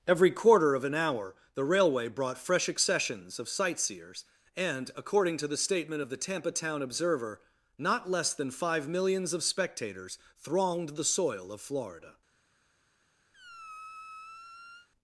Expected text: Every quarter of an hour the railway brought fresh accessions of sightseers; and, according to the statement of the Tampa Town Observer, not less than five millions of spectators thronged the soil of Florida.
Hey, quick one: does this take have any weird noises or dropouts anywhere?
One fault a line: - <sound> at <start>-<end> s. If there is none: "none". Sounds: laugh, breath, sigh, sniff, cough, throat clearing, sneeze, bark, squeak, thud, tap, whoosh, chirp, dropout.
- squeak at 13.3-14.9 s